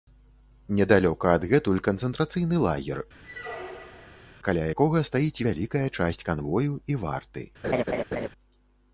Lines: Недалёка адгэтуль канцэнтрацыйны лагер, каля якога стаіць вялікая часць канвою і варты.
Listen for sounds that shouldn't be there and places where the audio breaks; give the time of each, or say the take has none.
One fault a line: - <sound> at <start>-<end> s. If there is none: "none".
- squeak at 3.2-4.4 s
- laugh at 7.6-8.3 s